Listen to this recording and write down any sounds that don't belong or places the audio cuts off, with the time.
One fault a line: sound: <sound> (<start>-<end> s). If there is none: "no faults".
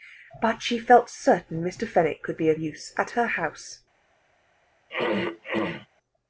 sound: throat clearing (4.9-5.9 s)